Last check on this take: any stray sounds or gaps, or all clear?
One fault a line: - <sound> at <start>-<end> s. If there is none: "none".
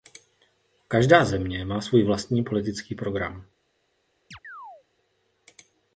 - chirp at 4.3-4.8 s